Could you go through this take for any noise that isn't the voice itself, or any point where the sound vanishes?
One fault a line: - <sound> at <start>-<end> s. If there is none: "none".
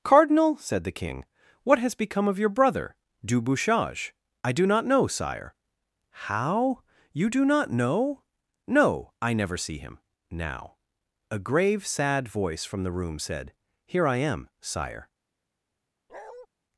- bark at 16.1-16.5 s